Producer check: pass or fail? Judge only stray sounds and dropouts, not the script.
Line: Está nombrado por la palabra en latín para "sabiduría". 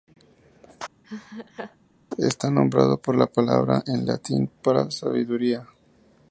fail